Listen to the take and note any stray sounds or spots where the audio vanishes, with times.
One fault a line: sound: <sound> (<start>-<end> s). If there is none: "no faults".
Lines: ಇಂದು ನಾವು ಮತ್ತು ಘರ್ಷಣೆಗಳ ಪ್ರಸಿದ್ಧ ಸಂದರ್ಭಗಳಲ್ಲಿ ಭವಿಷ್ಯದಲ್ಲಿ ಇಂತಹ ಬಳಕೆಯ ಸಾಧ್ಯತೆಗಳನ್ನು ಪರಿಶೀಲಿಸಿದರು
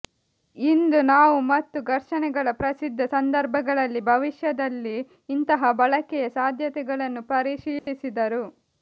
sound: dropout (7.8-7.9 s)